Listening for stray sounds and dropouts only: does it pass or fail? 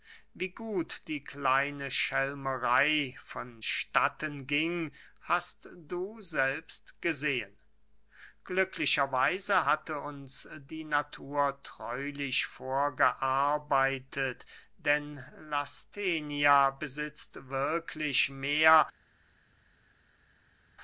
pass